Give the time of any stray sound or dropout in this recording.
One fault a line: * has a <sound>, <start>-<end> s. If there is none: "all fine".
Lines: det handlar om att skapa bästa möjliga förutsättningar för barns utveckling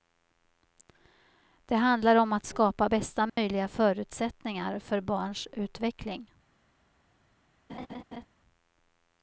* has a dropout, 3.3-3.4 s
* has a laugh, 7.7-8.3 s